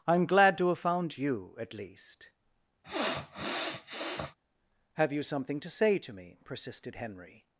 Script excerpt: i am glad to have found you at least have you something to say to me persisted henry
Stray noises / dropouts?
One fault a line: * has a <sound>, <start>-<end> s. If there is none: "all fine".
* has a sniff, 2.8-4.4 s